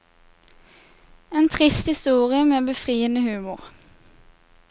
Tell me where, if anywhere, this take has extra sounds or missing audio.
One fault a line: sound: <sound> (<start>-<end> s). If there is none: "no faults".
no faults